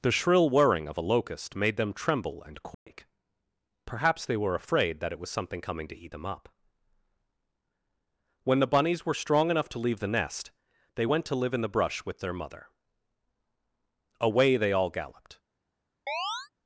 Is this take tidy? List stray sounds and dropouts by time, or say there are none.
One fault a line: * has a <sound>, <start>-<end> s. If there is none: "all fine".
* has a dropout, 2.7-2.9 s
* has a chirp, 16.1-16.5 s